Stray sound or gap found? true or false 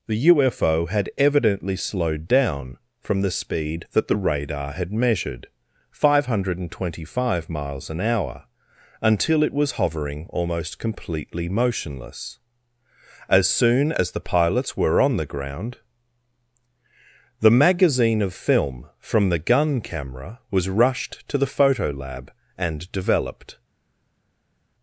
false